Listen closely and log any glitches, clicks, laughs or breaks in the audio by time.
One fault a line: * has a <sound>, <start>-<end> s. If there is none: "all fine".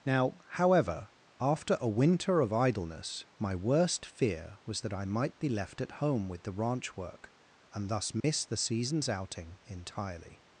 * has a dropout, 8.2-8.2 s